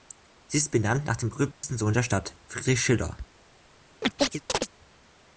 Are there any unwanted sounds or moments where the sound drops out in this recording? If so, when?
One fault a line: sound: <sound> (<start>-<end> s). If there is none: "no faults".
sound: dropout (1.5-1.6 s)
sound: chirp (4.0-4.7 s)